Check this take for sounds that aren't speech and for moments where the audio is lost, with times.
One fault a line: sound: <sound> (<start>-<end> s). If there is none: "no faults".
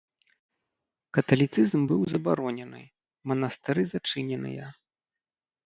no faults